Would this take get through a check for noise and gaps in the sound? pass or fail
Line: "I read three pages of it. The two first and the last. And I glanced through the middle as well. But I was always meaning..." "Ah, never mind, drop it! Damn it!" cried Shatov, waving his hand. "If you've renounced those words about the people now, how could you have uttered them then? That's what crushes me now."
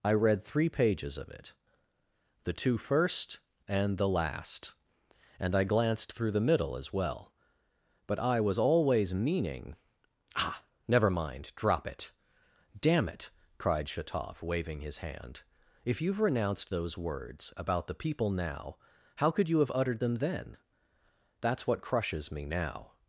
pass